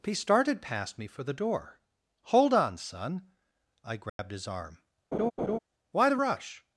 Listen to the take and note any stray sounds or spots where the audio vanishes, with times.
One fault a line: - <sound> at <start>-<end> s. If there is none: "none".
- dropout at 4.1-4.2 s
- laugh at 5.1-5.6 s